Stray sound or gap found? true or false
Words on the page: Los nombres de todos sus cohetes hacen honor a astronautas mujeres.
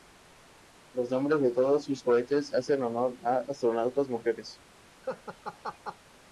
true